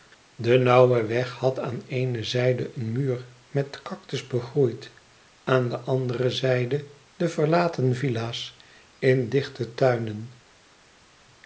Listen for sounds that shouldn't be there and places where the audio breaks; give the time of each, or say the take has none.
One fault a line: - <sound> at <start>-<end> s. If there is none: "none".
none